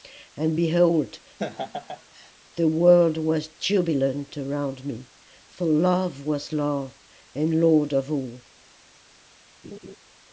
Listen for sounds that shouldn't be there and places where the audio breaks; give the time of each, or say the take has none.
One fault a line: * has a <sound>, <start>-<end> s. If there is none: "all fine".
* has a laugh, 1.4-2.3 s
* has a laugh, 9.6-10.0 s